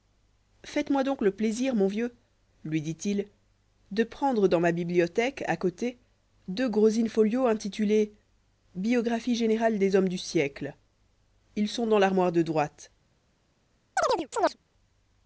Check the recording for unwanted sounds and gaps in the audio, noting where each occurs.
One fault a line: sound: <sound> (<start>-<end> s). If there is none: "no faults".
sound: chirp (14.0-14.6 s)